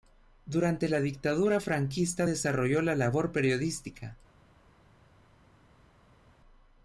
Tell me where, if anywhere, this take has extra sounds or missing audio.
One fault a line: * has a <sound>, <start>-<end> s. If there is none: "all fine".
all fine